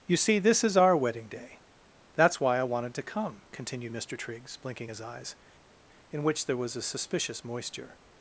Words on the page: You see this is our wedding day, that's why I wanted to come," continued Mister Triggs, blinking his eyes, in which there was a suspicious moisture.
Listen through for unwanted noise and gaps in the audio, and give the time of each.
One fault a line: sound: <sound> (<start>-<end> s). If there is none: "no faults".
no faults